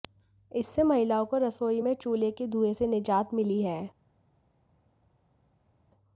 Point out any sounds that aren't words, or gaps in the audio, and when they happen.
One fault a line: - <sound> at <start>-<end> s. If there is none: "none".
none